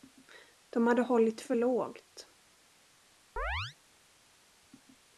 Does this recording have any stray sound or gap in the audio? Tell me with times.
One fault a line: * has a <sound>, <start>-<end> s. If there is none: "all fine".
* has a chirp, 3.4-3.8 s